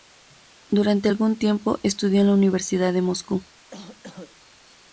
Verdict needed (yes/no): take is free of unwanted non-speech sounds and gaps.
no